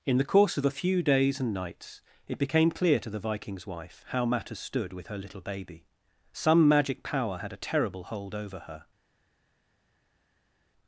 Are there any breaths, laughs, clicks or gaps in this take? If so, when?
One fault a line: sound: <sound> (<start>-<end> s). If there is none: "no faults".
no faults